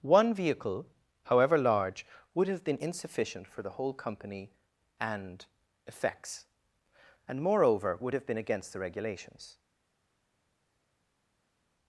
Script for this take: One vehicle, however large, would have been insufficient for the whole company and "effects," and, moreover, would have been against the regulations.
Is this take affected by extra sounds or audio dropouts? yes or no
no